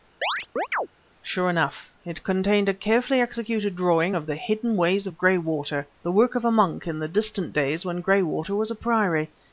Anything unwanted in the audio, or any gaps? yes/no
yes